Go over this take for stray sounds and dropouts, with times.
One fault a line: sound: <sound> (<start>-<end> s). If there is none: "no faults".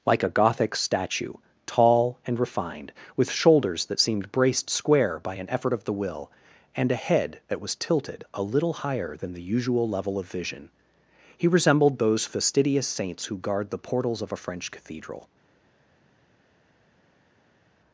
no faults